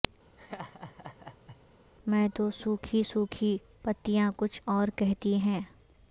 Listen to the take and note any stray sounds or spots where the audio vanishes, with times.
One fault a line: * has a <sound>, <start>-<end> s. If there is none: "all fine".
* has a laugh, 0.4-1.6 s